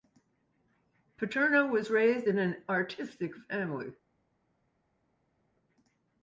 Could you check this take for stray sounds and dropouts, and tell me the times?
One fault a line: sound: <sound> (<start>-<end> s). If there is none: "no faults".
no faults